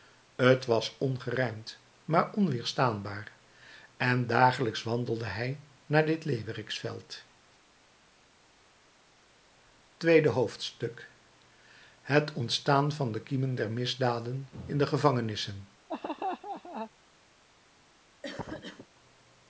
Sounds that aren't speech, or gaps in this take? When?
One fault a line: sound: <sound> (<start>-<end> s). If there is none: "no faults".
sound: laugh (15.9-16.9 s)
sound: cough (18.2-18.9 s)